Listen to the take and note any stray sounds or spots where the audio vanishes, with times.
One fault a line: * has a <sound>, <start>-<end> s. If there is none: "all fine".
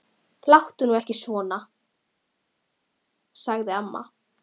all fine